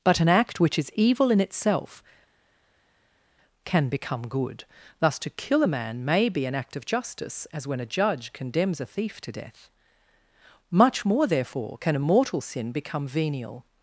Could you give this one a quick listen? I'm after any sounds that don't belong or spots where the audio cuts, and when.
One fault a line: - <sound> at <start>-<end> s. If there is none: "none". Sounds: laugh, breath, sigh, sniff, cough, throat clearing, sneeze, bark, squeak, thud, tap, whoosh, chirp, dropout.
none